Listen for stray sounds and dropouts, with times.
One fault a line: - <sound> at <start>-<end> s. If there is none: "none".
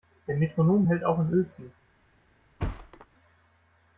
- thud at 2.6-3.1 s